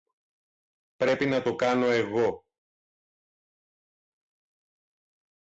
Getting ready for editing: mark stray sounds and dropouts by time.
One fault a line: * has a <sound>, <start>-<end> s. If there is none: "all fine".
all fine